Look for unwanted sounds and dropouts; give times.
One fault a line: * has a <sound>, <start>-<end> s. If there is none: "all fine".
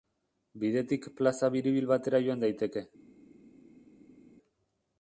all fine